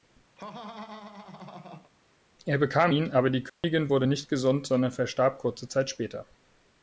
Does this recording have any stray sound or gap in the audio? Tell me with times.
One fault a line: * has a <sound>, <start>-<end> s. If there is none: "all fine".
* has a laugh, 0.4-1.9 s
* has a dropout, 3.5-3.6 s